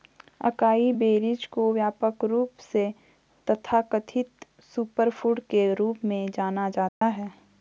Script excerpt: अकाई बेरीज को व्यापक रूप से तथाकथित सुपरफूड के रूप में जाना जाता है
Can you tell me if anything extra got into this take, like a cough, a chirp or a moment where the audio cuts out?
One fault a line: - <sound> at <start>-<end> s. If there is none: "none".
- dropout at 6.9-7.0 s